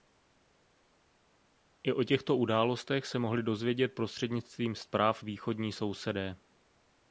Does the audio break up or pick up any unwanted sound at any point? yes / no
no